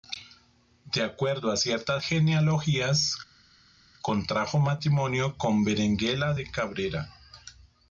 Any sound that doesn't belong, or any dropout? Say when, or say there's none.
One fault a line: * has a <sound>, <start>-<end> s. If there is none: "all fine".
all fine